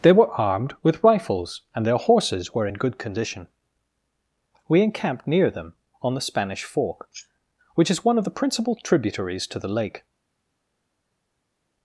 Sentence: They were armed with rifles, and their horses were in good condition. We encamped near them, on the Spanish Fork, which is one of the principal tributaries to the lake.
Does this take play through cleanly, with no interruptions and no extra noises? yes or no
yes